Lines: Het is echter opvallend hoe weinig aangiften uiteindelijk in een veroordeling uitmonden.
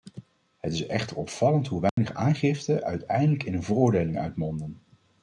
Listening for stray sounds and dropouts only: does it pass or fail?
fail